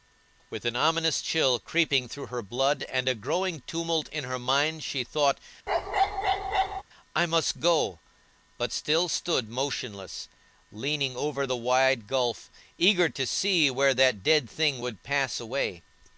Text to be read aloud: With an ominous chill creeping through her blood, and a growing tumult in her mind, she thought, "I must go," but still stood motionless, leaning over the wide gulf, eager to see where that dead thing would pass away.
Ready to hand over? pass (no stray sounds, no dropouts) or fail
fail